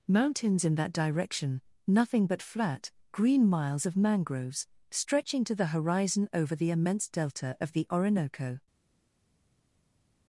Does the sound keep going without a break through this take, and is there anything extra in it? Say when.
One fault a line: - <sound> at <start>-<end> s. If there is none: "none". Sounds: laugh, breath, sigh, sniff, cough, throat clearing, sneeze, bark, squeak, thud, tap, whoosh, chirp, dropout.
none